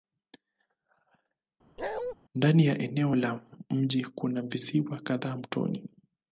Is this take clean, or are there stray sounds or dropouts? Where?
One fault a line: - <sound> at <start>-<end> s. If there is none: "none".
- bark at 1.8-2.1 s